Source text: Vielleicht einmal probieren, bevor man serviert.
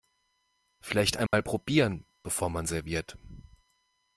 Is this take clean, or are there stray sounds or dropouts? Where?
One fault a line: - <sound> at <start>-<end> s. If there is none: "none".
- dropout at 1.3-1.3 s